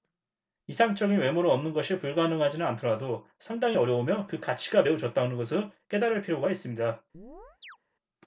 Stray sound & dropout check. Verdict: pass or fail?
fail